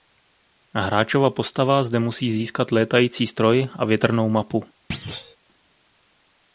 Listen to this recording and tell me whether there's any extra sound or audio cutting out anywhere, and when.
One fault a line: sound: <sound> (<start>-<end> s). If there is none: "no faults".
sound: thud (4.9-5.4 s)